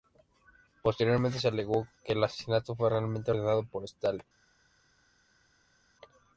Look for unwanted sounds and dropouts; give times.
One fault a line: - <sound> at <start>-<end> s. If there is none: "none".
none